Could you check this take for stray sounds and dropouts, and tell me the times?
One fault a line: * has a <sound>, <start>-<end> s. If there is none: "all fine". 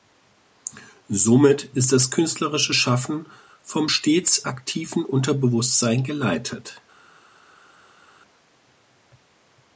all fine